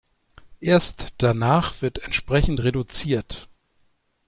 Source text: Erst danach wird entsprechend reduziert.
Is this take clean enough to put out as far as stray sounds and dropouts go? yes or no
yes